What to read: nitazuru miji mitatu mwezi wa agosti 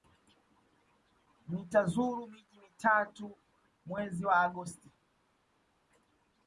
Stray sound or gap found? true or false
false